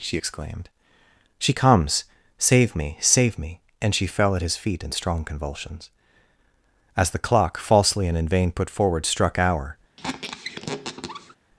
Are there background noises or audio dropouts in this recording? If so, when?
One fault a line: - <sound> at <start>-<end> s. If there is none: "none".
- squeak at 10.0-11.4 s